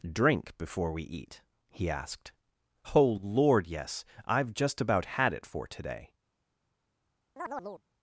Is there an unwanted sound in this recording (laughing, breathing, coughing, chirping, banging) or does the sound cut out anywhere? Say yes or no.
yes